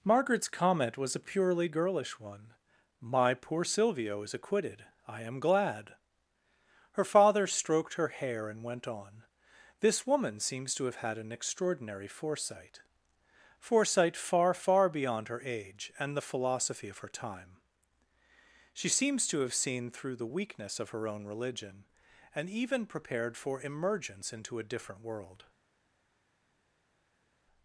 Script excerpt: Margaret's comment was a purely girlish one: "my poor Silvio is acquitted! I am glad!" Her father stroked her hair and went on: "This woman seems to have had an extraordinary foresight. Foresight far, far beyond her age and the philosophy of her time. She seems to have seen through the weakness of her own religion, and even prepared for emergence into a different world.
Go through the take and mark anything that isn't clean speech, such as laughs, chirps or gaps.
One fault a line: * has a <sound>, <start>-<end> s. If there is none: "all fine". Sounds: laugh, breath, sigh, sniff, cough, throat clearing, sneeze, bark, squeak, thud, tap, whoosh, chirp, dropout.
all fine